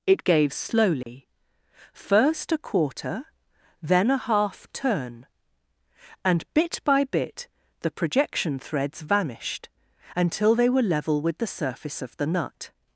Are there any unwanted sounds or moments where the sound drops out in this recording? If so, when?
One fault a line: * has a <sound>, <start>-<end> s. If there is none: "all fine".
* has a dropout, 1.0-1.1 s